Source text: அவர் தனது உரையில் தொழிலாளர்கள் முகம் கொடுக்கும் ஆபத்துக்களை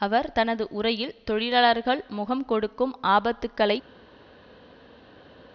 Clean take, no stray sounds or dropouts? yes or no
yes